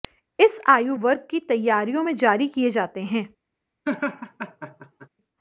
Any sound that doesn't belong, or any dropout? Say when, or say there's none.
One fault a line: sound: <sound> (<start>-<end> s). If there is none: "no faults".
sound: laugh (3.8-5.1 s)